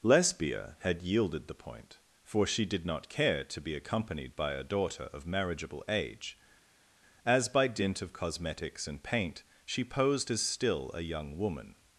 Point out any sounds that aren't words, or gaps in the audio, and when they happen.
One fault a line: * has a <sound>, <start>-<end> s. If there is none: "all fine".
all fine